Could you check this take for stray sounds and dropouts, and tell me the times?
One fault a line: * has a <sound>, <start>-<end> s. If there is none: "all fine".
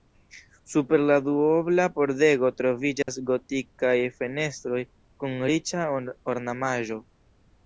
* has a dropout, 3.0-3.1 s